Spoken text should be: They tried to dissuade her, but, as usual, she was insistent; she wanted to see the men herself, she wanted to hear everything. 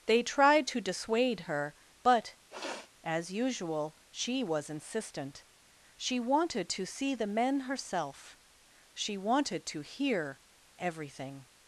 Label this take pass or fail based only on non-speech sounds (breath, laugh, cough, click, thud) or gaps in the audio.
fail